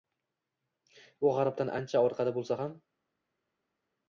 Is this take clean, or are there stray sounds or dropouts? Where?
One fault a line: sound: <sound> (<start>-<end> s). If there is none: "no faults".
no faults